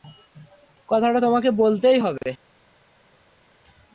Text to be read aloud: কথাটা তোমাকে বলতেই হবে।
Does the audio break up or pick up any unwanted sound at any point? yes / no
no